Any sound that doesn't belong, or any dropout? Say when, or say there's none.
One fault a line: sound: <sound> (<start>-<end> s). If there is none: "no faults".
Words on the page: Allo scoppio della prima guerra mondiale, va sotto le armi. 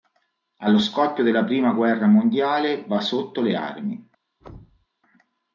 sound: thud (4.4-4.9 s)